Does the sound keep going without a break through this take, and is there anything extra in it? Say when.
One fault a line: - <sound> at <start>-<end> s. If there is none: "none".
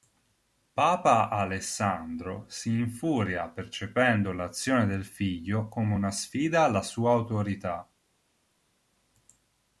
none